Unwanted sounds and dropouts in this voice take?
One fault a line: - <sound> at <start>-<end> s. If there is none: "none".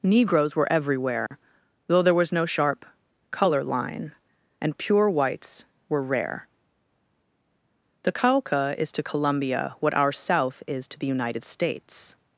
- dropout at 1.3-1.3 s